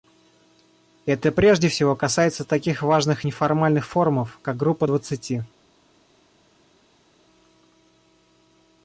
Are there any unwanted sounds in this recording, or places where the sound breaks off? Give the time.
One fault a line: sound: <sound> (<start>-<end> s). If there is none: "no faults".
no faults